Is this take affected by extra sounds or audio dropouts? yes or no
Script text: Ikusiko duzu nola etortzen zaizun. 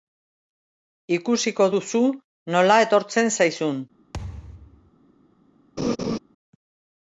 yes